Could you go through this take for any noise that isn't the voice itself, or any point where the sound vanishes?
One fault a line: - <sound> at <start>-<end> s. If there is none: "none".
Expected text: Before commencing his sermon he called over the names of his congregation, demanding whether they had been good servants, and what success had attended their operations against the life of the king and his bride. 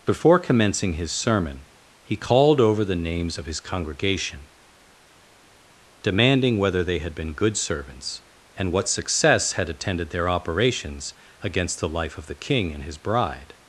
none